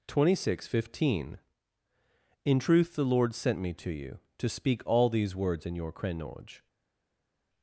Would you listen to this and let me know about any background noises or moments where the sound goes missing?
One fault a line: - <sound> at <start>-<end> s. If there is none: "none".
none